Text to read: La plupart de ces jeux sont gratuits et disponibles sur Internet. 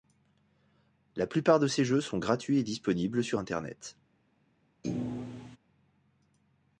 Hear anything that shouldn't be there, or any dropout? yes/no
yes